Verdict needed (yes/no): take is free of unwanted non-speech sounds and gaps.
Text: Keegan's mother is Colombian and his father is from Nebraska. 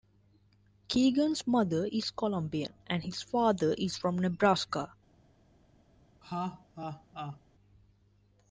no